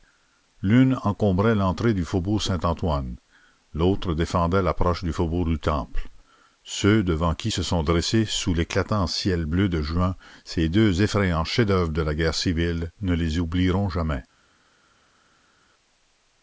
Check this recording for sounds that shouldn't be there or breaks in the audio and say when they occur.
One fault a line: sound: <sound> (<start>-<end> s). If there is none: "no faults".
no faults